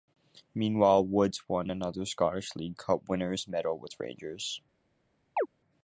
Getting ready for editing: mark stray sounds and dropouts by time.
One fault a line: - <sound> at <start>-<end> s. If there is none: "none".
- chirp at 5.4-5.5 s